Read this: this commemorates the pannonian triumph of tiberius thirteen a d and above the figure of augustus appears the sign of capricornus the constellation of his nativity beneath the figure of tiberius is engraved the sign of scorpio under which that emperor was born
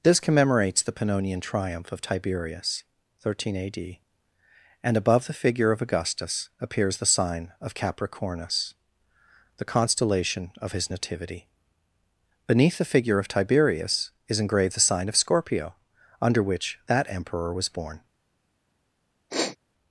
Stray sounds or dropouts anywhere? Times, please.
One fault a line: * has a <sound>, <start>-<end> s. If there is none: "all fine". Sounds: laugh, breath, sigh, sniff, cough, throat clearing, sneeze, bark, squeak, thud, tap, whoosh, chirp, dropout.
* has a sniff, 19.3-19.6 s